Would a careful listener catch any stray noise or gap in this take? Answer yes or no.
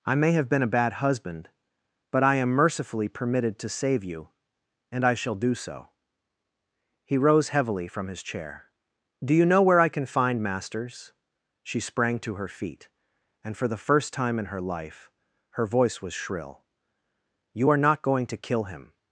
no